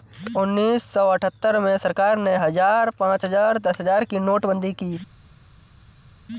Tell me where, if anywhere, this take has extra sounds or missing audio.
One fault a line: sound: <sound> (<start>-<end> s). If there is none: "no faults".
no faults